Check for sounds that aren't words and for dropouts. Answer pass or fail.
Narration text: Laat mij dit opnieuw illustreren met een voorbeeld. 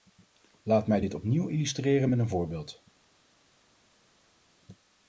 pass